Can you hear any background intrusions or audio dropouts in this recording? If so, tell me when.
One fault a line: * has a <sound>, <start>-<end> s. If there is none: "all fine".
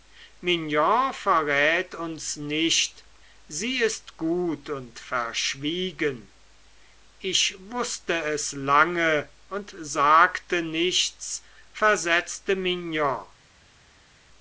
all fine